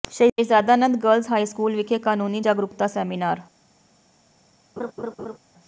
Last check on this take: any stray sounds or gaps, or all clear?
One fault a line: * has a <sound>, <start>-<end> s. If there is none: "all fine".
* has a laugh, 4.8-5.4 s